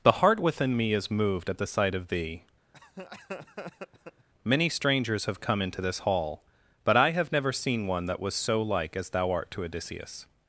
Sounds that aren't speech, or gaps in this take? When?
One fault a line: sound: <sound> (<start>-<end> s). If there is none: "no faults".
sound: laugh (2.7-4.3 s)